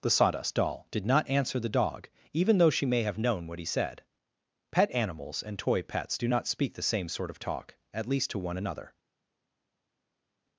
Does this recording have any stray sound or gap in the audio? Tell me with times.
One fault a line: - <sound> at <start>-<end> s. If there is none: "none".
none